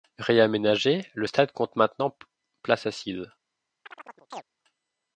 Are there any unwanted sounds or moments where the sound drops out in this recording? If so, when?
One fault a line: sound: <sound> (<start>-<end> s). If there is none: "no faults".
sound: chirp (3.9-4.4 s)